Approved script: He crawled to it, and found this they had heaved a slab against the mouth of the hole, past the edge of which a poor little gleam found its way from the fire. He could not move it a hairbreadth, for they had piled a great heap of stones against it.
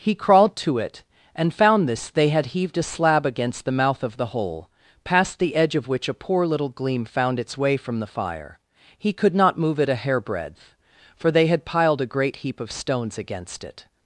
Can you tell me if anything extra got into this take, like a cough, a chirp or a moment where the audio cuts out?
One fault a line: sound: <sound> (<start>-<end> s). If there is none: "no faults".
no faults